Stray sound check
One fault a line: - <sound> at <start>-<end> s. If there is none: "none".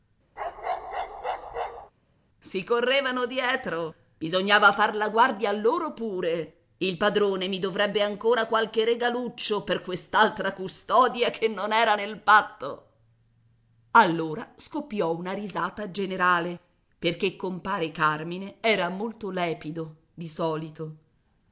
- bark at 0.4-1.9 s